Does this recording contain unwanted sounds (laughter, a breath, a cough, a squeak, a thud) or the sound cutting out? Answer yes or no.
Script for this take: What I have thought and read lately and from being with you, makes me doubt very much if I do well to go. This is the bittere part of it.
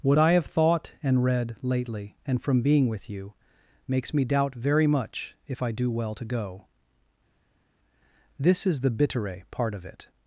no